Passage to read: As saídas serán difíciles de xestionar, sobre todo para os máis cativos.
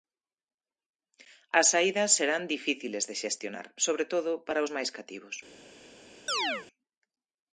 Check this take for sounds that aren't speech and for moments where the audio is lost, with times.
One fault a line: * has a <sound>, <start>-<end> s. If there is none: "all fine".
* has a chirp, 6.3-6.7 s